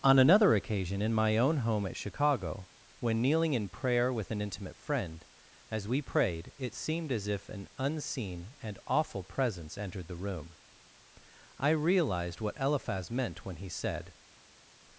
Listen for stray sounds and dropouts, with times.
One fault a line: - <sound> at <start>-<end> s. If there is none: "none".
none